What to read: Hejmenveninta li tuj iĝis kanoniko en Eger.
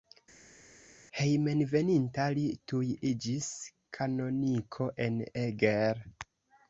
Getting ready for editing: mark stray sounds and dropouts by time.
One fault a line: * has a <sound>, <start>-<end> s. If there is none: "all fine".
all fine